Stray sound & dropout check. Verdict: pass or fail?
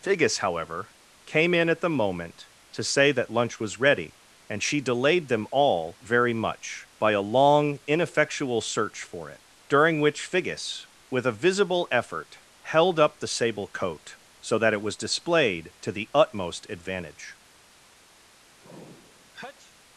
fail